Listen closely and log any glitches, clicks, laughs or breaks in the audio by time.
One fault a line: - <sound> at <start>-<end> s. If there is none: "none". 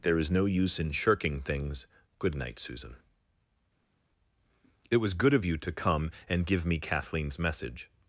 none